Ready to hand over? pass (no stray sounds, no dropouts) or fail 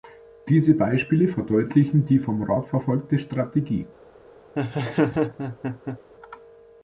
fail